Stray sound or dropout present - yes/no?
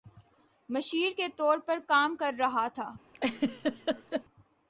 yes